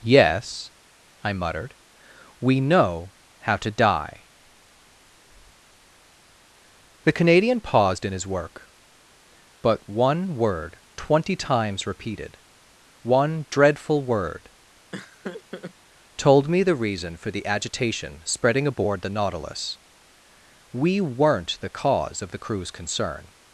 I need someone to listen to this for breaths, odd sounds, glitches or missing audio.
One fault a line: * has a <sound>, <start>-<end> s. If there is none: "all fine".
* has a laugh, 14.9-15.7 s